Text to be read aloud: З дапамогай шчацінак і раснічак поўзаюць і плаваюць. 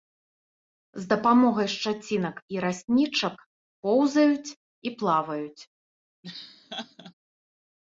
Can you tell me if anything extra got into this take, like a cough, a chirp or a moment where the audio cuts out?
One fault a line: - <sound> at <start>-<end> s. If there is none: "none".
- laugh at 6.2-7.1 s